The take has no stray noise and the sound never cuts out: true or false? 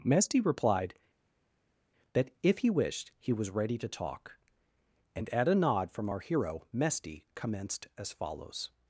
true